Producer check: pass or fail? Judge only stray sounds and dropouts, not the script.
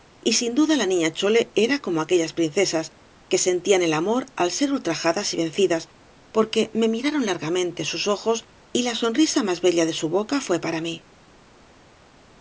pass